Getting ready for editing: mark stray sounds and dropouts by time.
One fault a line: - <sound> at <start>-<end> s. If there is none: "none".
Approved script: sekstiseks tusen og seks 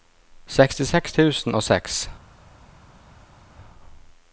none